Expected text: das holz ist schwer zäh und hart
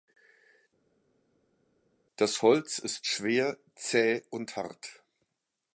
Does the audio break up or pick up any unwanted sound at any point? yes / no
no